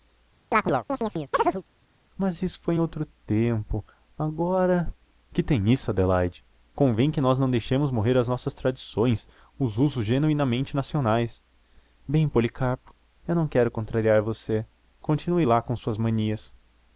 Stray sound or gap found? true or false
true